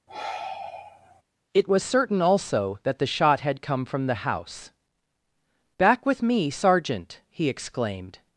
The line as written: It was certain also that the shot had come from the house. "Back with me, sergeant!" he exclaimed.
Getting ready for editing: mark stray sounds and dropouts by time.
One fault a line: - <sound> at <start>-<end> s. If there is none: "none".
- sigh at 0.1-1.2 s